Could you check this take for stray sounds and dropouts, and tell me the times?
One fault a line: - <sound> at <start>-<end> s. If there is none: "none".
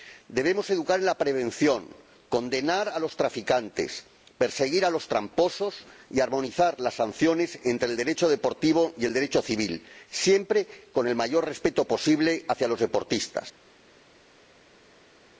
none